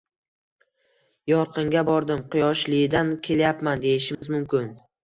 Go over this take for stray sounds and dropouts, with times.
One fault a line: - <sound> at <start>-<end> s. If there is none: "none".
- dropout at 4.1-4.2 s